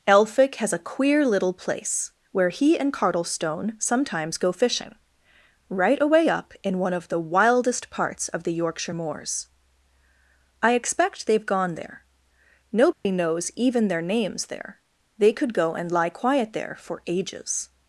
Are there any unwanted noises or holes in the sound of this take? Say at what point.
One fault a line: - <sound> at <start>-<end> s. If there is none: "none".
- dropout at 12.9-13.1 s